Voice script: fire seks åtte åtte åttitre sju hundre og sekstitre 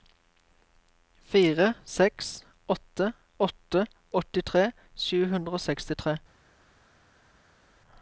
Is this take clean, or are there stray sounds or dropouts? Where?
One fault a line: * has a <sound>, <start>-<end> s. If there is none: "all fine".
all fine